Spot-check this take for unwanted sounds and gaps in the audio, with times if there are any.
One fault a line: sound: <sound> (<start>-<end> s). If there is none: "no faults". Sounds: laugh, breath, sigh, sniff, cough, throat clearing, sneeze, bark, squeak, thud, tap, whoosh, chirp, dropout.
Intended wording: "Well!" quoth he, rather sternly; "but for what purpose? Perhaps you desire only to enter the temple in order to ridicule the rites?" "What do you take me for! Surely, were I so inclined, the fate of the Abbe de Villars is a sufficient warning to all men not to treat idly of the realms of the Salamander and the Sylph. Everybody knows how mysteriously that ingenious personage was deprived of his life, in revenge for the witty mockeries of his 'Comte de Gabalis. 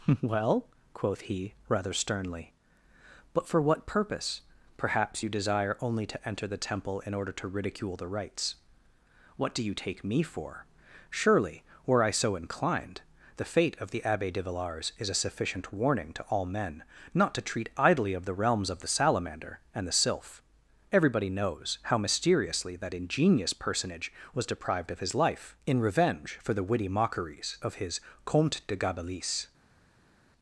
no faults